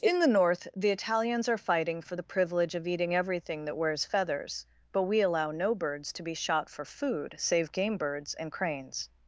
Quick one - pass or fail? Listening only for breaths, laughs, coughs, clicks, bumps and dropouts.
pass